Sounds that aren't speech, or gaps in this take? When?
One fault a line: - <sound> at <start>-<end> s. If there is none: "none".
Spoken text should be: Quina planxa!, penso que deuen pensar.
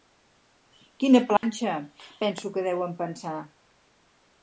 - dropout at 1.4-1.4 s